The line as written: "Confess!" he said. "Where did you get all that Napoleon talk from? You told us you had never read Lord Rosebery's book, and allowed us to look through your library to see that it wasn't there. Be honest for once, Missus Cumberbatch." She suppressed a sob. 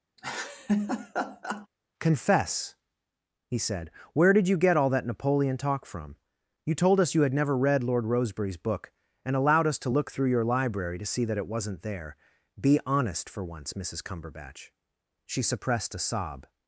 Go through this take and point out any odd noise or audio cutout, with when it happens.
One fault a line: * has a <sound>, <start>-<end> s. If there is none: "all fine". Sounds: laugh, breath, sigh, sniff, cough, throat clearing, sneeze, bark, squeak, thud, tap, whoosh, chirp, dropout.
* has a laugh, 0.2-1.7 s